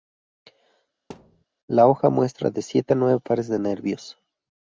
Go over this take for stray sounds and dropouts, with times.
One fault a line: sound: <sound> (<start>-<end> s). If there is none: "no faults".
sound: thud (1.1-1.4 s)